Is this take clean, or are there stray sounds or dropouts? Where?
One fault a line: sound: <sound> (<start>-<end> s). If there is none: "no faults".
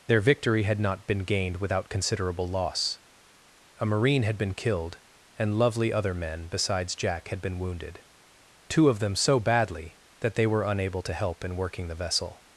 no faults